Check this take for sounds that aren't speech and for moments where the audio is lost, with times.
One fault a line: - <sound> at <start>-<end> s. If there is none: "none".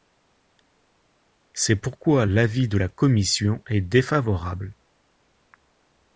none